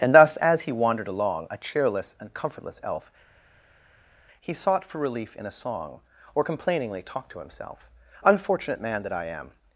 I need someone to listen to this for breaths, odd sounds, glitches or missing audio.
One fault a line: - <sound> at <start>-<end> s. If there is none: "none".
none